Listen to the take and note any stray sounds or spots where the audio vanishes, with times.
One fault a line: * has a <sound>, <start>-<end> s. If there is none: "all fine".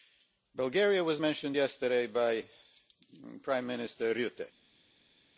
all fine